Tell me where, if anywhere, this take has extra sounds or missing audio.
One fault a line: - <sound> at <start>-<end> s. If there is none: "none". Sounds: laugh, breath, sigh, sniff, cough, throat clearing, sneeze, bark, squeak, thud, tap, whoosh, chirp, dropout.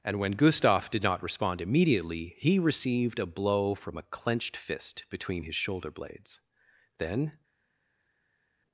none